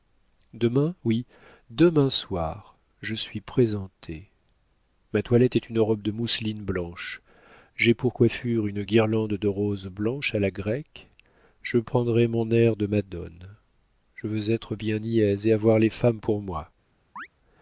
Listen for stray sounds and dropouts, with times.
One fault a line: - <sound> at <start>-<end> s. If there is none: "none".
- chirp at 17.2-17.3 s